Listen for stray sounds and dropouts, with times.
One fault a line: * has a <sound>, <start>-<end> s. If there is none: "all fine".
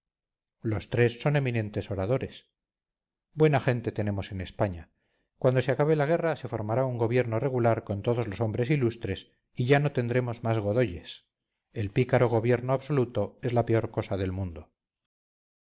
all fine